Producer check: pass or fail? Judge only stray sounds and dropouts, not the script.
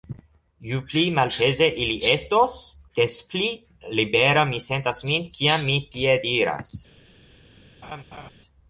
fail